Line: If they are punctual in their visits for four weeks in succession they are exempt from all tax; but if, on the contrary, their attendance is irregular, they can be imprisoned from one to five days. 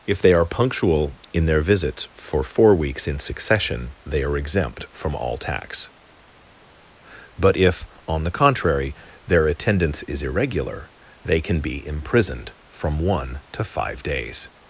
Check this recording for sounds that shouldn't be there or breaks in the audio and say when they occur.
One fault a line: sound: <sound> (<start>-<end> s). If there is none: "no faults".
no faults